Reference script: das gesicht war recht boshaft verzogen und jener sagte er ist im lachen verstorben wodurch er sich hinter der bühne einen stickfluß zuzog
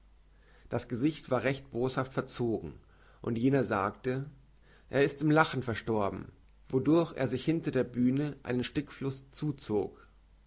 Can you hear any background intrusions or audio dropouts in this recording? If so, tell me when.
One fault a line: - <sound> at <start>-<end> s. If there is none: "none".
none